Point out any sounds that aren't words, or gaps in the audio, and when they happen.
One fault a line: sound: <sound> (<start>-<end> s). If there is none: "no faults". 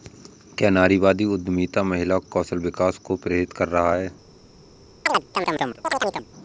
sound: chirp (5.1-6.3 s)